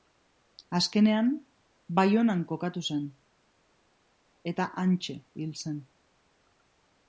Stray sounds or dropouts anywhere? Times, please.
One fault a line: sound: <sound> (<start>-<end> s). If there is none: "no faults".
no faults